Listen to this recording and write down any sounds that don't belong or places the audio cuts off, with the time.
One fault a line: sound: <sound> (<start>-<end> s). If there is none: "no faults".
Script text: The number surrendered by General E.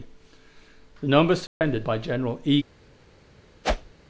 sound: dropout (1.5-1.6 s)
sound: whoosh (3.6-3.9 s)